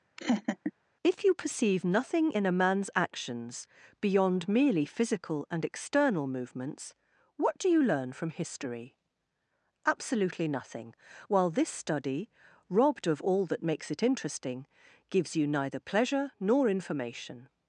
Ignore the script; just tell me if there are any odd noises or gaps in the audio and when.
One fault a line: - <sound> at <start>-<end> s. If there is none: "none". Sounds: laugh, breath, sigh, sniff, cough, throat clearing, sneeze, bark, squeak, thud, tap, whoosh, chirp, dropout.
- laugh at 0.2-0.7 s